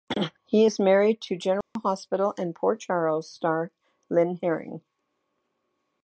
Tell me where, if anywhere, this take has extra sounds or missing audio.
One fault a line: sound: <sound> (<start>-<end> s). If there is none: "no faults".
sound: dropout (1.6-1.8 s)